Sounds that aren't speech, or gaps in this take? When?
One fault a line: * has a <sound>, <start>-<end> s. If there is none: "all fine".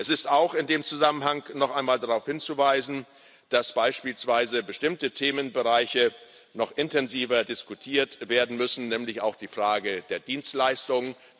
all fine